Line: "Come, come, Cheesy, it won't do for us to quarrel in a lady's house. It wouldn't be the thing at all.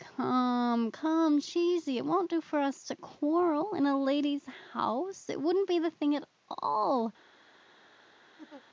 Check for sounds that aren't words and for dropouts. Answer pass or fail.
fail